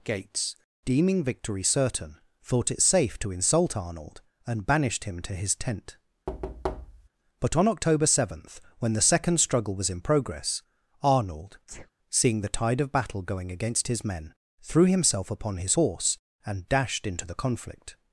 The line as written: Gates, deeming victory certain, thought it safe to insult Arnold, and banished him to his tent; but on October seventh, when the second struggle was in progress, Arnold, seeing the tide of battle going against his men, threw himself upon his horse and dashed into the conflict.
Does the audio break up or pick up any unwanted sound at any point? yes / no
yes